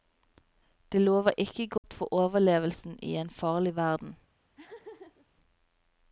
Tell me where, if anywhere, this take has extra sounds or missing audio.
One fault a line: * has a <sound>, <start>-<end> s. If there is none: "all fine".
* has a dropout, 1.8-1.8 s
* has a laugh, 4.5-5.3 s